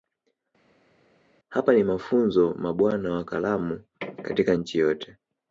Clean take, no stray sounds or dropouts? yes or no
yes